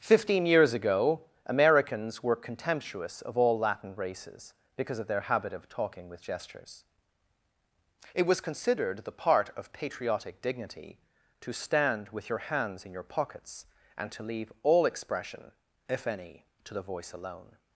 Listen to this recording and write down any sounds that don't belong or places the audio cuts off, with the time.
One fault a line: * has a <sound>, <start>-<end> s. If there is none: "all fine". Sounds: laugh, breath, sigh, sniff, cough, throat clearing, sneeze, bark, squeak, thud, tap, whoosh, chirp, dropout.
all fine